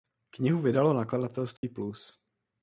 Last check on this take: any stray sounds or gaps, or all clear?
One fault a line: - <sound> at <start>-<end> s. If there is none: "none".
- dropout at 1.6-1.6 s